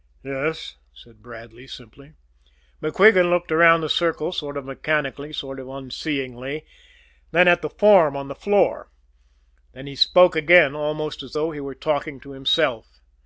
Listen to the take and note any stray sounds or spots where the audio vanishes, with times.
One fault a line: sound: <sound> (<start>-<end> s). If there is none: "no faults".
no faults